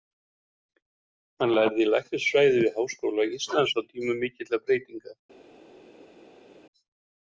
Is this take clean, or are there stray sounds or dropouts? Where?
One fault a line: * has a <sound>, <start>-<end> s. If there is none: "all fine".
all fine